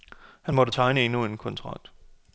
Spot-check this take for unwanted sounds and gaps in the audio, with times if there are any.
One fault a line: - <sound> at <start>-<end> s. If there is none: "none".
none